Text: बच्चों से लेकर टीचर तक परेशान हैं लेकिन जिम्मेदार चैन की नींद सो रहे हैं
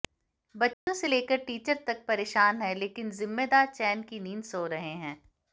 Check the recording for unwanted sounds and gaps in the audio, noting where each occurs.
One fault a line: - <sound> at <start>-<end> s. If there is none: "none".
- dropout at 0.7-0.9 s